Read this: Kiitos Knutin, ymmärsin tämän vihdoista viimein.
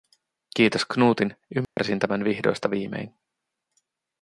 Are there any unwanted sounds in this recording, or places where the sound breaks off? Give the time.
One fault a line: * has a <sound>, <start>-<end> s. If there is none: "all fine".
* has a dropout, 1.6-1.8 s